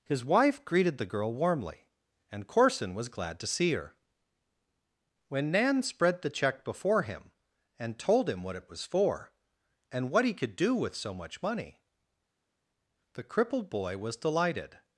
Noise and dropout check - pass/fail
pass